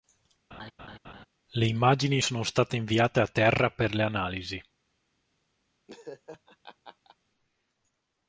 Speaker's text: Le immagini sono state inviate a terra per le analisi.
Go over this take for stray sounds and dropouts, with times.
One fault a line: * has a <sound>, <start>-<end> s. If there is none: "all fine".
* has a laugh, 0.5-1.3 s
* has a laugh, 5.9-7.2 s